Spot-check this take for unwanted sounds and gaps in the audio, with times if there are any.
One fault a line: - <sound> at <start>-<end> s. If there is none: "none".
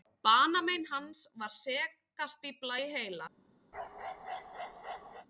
- bark at 3.7-5.3 s